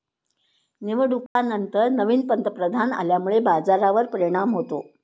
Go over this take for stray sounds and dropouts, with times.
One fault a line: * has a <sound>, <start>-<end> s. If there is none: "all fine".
* has a dropout, 1.3-1.4 s